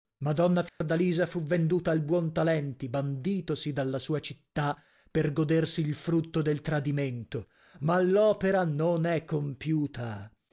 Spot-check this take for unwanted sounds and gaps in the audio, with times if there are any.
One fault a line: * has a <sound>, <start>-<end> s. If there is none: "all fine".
* has a dropout, 0.7-0.8 s